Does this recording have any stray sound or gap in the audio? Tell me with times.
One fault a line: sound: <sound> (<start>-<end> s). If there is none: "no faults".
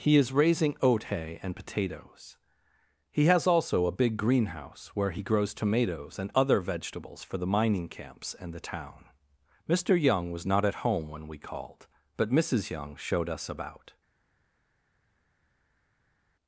no faults